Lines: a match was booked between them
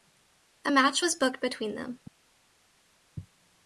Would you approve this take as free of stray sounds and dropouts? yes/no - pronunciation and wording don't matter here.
yes